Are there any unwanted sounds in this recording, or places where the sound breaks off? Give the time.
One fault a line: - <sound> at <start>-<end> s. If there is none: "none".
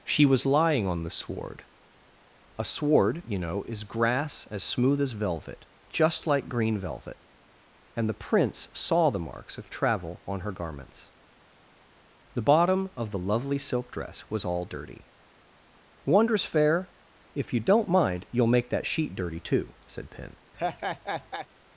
- laugh at 20.5-21.5 s